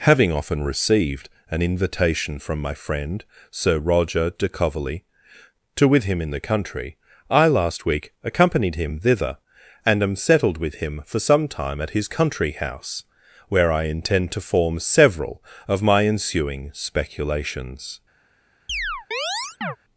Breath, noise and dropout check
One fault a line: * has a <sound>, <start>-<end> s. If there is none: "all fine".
* has a chirp, 18.7-19.8 s